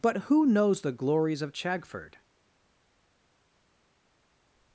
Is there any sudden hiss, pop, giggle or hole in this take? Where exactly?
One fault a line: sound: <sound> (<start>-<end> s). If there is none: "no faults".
no faults